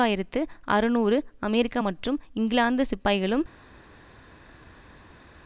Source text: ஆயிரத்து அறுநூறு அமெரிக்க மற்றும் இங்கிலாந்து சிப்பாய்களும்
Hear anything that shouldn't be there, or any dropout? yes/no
no